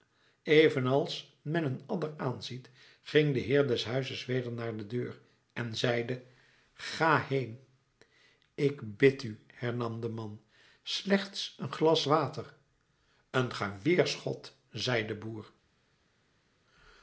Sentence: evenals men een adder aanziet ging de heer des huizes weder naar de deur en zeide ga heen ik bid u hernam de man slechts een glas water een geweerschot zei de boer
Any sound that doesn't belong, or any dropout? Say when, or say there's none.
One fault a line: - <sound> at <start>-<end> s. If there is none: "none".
none